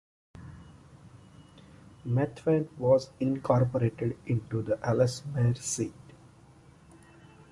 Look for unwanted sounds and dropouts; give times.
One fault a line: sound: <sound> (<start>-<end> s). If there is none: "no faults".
no faults